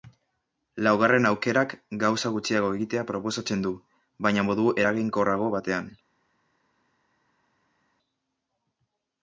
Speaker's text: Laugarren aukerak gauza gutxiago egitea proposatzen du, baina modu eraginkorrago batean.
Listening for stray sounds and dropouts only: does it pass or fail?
pass